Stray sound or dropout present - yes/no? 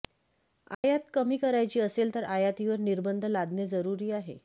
yes